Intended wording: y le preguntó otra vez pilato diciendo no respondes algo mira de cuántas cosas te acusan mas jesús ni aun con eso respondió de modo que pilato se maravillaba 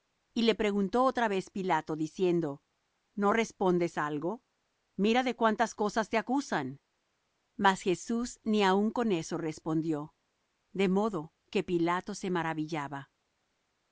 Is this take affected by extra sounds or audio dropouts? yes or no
no